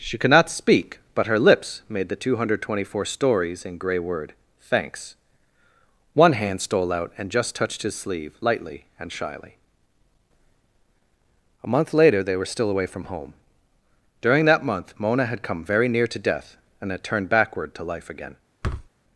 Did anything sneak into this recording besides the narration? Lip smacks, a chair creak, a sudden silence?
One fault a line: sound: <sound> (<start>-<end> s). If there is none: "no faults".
sound: thud (18.6-18.9 s)